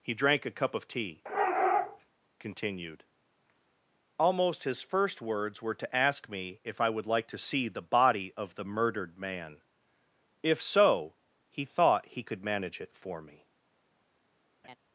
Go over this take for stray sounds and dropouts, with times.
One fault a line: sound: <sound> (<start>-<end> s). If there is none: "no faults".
sound: laugh (14.6-14.8 s)